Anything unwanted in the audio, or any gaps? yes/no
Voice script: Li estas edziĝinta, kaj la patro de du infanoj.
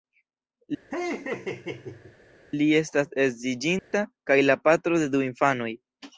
yes